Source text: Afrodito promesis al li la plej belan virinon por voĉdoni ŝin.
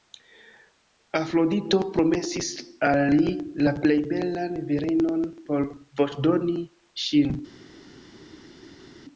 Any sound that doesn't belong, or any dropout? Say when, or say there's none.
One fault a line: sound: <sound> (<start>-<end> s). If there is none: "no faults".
no faults